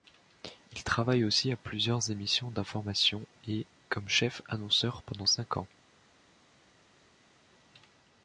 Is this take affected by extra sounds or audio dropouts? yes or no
no